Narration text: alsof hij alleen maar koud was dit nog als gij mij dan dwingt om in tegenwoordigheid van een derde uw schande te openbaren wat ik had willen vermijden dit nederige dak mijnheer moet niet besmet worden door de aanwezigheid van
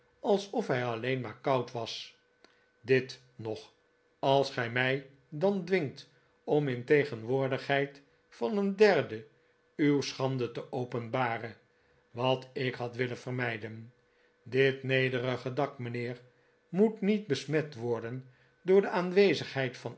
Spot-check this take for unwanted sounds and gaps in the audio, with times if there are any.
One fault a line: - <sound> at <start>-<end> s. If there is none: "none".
none